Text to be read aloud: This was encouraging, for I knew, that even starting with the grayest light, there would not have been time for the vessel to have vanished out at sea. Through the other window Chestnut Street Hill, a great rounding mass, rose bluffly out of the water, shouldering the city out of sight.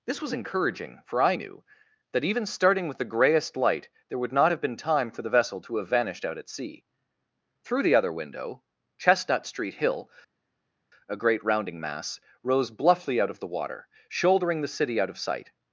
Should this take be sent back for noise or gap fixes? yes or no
no